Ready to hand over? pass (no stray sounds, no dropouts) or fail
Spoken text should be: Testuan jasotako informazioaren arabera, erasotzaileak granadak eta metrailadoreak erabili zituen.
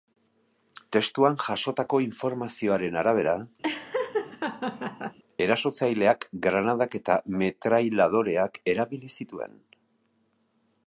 fail